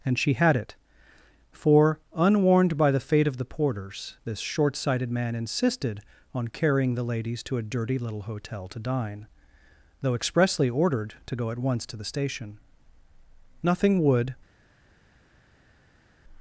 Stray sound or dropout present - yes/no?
no